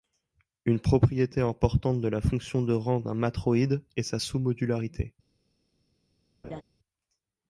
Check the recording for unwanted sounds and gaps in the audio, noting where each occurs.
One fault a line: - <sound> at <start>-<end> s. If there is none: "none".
- laugh at 6.4-6.6 s